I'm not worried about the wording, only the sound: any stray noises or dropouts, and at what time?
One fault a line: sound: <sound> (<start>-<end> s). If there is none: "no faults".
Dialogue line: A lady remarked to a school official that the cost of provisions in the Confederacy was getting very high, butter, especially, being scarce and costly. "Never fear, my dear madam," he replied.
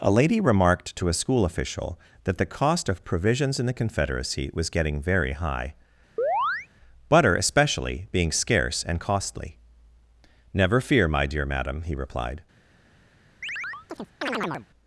sound: chirp (6.2-6.7 s)
sound: chirp (13.4-14.7 s)